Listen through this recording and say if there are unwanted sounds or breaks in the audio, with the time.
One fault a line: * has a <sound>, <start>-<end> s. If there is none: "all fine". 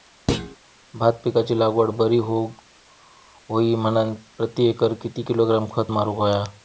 * has a thud, 0.3-0.6 s